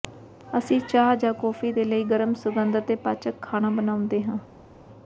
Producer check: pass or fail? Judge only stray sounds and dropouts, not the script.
pass